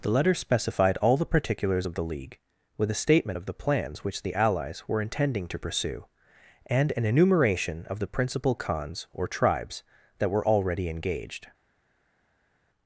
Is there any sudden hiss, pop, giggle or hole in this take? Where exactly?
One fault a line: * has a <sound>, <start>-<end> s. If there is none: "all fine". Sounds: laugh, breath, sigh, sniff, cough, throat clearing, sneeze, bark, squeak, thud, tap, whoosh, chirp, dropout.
all fine